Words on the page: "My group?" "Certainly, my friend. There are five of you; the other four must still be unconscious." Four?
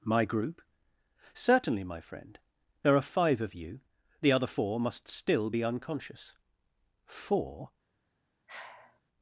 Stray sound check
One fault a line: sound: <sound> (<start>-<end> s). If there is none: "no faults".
sound: sigh (8.5-9.0 s)